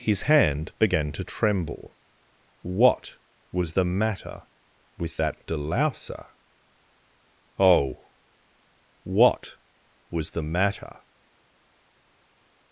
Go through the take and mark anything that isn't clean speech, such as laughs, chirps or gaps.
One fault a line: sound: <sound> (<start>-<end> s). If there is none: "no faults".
no faults